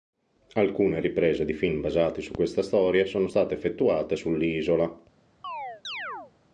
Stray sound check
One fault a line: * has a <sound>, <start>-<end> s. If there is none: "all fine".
* has a chirp, 5.4-6.3 s